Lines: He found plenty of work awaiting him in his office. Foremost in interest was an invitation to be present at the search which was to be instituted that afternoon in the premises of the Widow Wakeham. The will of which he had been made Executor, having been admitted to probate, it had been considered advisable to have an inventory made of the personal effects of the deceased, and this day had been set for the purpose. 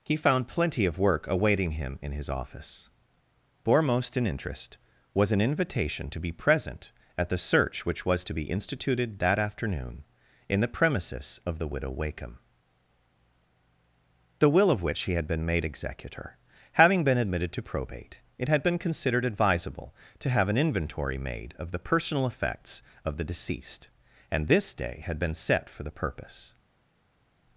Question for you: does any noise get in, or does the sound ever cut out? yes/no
no